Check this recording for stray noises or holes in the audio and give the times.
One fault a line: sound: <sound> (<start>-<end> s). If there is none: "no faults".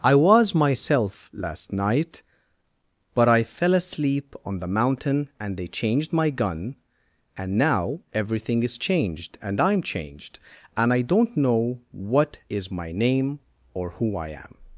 no faults